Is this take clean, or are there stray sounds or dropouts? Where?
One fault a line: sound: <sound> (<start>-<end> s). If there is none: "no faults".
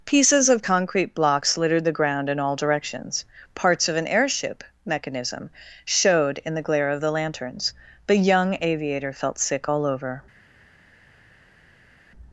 no faults